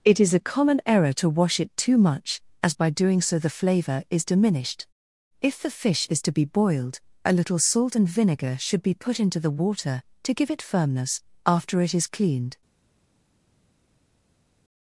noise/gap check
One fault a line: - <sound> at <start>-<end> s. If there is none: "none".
none